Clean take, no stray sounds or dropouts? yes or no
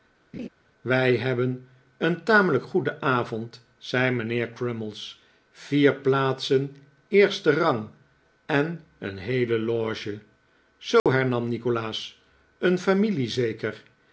no